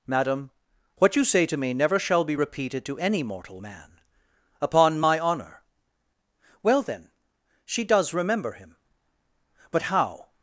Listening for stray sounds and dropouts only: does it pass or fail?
pass